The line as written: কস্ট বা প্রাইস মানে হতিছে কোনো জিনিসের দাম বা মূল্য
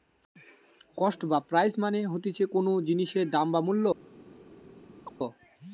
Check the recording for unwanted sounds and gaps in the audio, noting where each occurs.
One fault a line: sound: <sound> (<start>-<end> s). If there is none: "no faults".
sound: chirp (5.1-5.1 s)